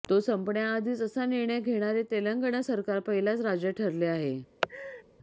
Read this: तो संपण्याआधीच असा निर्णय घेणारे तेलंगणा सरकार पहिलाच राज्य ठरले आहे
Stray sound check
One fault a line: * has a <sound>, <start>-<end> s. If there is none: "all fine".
* has a laugh, 4.6-5.0 s